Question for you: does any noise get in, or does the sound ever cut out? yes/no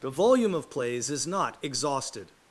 no